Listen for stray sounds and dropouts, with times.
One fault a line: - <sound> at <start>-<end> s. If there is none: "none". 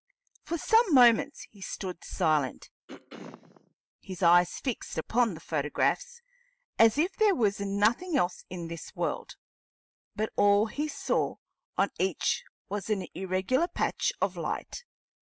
- throat clearing at 2.9-3.7 s